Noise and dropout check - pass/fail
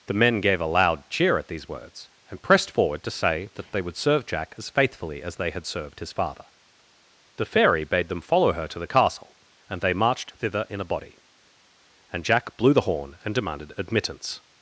pass